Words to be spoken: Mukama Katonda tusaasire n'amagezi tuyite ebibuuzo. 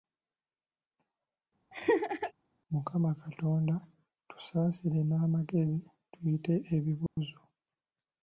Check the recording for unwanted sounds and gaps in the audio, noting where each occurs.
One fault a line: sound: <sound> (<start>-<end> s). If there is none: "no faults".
sound: laugh (1.7-2.3 s)
sound: dropout (7.1-7.2 s)